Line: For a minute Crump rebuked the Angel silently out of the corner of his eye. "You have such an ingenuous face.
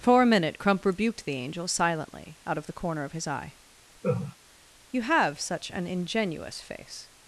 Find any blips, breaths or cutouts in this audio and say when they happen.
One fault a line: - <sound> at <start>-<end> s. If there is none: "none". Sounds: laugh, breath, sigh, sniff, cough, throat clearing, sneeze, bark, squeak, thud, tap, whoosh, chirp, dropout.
- laugh at 4.0-4.4 s